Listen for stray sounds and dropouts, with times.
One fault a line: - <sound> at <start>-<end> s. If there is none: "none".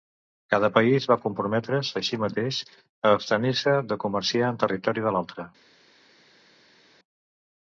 none